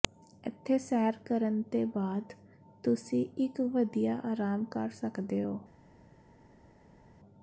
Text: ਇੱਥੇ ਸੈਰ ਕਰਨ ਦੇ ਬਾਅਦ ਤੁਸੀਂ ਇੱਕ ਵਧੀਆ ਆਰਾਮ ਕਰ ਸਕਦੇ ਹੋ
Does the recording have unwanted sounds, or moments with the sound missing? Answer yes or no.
no